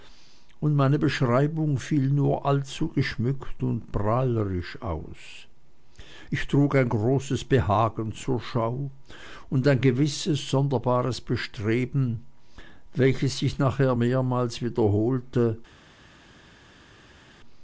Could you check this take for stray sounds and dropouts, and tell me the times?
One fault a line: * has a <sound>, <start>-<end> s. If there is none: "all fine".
all fine